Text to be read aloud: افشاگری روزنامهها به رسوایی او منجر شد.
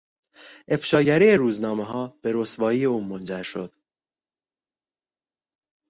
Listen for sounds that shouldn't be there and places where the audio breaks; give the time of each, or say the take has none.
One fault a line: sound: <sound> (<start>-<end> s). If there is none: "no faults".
no faults